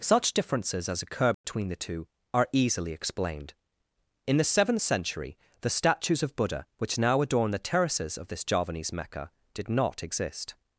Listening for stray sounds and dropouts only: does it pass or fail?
fail